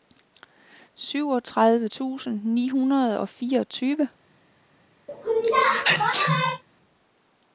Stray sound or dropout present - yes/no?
yes